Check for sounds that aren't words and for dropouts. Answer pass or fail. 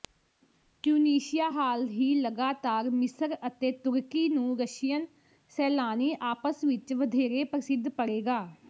pass